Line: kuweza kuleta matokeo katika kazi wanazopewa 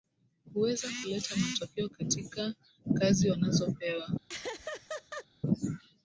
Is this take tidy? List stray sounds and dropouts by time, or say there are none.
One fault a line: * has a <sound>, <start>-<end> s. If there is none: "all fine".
* has a laugh, 4.3-5.3 s